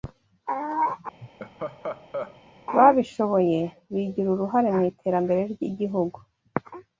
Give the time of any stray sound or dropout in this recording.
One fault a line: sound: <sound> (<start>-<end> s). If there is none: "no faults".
sound: laugh (1.2-2.4 s)